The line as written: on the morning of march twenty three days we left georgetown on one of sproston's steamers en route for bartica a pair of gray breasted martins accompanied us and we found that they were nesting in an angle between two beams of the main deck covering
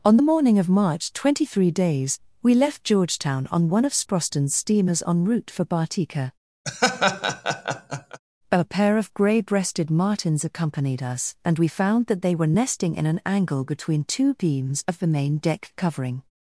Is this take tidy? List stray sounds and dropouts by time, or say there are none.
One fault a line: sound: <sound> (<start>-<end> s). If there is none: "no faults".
sound: laugh (6.6-8.2 s)